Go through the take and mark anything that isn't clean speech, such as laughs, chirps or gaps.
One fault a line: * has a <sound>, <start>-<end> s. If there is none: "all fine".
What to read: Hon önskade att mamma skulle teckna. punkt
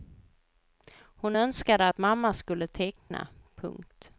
* has a dropout, 3.0-3.1 s